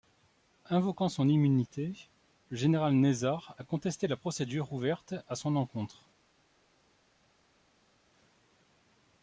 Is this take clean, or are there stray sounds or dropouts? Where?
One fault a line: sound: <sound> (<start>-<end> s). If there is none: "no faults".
no faults